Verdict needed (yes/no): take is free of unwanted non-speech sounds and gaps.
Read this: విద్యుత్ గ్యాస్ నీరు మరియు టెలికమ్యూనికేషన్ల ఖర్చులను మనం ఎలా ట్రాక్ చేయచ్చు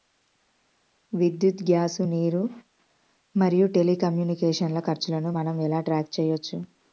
yes